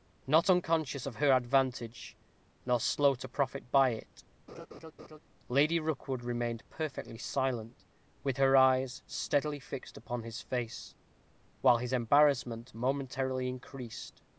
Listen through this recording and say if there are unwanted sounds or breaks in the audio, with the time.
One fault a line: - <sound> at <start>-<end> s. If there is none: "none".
- laugh at 4.5-5.2 s